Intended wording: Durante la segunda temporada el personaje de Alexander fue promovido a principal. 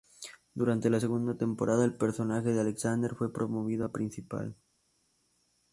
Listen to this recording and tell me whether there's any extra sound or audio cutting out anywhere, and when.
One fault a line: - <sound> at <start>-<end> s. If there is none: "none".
none